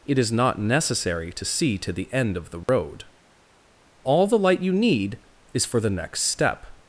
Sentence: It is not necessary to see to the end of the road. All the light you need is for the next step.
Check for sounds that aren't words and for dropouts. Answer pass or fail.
fail